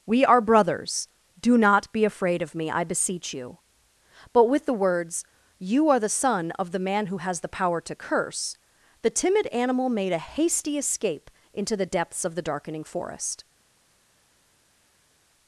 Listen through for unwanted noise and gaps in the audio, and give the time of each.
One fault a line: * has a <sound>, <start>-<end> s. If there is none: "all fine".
all fine